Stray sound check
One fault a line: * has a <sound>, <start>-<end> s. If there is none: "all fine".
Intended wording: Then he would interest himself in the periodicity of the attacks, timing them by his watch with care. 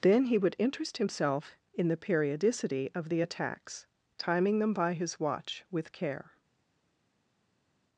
all fine